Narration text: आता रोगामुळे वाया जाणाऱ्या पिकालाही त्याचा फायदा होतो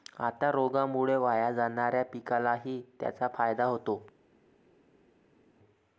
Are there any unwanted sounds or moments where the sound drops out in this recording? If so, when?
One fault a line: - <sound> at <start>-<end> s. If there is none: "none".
none